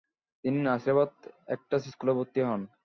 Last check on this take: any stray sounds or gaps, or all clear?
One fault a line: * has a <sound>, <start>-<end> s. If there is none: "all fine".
all fine